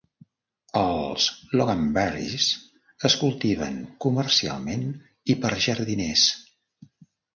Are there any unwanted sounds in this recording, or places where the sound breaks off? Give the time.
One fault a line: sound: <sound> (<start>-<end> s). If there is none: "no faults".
no faults